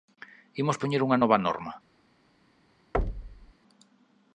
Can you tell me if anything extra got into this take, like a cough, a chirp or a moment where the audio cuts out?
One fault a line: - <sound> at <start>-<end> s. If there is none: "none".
- thud at 2.9-3.5 s